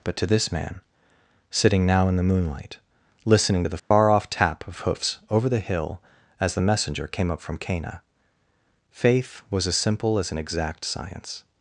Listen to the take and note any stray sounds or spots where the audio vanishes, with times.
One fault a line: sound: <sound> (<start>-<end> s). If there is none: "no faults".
sound: dropout (3.8-3.9 s)